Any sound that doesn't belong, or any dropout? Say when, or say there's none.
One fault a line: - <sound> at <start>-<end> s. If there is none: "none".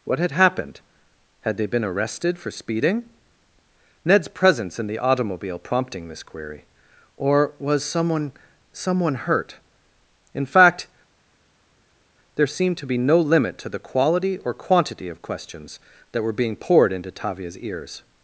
none